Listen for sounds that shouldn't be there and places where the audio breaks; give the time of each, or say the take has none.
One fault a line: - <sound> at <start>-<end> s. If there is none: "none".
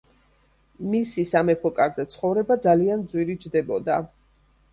none